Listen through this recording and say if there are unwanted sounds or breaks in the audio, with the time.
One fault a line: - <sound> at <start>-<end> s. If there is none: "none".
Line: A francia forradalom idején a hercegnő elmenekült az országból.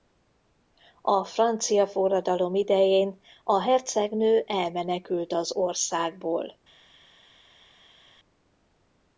none